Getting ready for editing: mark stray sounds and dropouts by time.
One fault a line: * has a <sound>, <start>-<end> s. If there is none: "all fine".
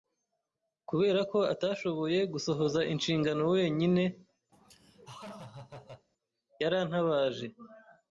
* has a laugh, 4.5-6.1 s